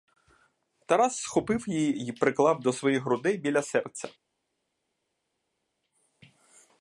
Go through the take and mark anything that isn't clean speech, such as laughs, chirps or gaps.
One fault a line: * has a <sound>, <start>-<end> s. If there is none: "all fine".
all fine